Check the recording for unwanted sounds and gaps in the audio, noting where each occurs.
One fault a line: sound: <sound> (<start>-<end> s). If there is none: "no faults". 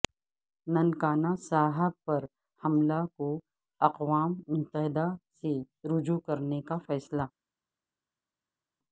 no faults